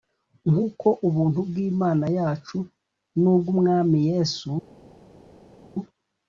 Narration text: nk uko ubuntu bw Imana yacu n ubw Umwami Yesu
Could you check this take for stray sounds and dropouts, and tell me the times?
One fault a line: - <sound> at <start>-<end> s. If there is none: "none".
none